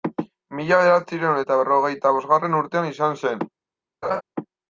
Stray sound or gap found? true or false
true